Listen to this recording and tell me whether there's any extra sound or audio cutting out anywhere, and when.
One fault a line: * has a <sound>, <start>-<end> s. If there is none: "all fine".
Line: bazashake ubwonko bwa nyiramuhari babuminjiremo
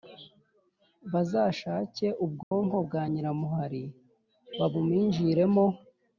* has a dropout, 2.4-2.5 s